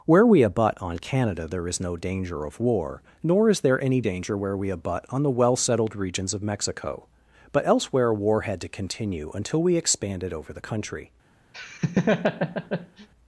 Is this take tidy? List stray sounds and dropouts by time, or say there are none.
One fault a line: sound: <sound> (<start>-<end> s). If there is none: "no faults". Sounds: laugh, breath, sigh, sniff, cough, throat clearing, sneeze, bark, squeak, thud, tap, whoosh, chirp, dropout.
sound: laugh (11.5-13.1 s)